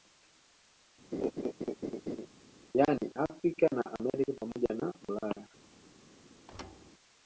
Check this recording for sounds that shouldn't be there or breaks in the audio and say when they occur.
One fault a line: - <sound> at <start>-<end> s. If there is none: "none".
- laugh at 1.1-2.3 s
- thud at 6.5-6.9 s